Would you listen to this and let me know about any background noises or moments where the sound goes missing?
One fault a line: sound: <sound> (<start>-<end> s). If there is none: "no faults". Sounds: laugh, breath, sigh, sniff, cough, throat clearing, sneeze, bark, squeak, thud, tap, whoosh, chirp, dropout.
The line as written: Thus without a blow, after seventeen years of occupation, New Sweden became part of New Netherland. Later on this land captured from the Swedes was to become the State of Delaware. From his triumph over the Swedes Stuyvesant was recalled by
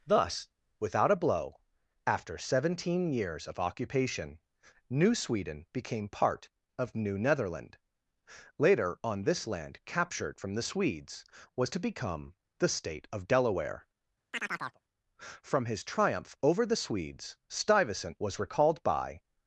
sound: chirp (14.3-14.8 s)